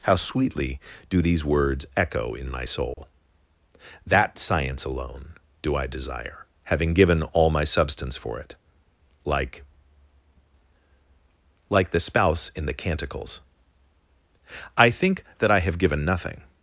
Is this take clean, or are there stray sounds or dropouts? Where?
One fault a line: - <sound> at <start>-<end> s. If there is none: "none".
- dropout at 2.9-3.0 s